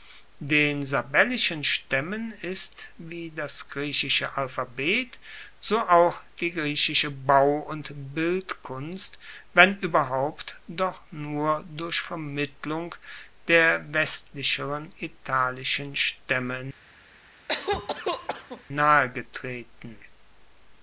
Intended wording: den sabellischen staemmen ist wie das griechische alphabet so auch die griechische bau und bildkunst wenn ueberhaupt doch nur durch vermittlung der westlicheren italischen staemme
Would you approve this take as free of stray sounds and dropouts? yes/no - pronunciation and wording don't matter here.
no